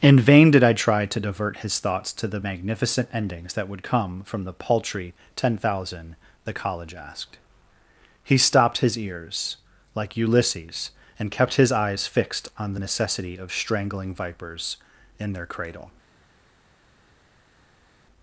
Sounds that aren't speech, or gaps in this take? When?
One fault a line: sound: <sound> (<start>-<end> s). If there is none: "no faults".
no faults